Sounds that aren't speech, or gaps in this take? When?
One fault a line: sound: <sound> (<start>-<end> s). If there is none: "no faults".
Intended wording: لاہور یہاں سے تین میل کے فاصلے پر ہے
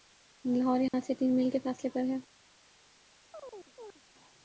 sound: dropout (0.9-0.9 s)
sound: chirp (3.3-4.0 s)